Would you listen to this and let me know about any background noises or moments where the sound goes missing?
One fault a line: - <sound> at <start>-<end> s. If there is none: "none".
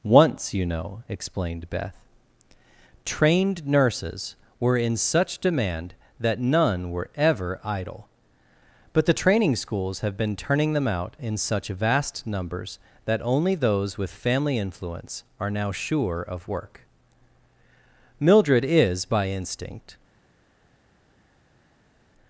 none